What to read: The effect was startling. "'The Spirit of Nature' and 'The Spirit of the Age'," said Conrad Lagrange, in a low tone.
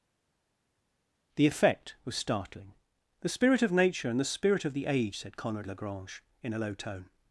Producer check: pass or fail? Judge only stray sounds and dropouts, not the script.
pass